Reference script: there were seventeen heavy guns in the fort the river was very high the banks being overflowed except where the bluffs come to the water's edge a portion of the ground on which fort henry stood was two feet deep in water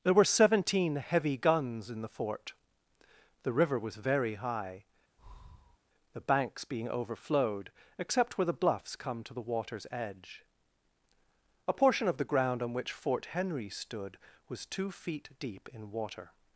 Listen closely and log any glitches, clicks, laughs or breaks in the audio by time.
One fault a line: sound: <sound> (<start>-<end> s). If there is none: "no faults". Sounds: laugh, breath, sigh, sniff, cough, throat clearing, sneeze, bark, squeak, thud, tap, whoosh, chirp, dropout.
sound: breath (5.2-5.8 s)